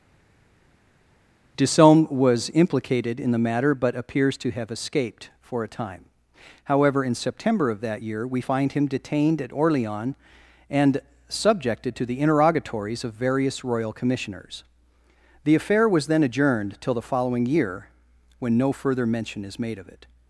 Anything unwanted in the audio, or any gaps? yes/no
no